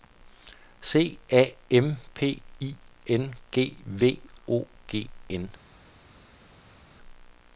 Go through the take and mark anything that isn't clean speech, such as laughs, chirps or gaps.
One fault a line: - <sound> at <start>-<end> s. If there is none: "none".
none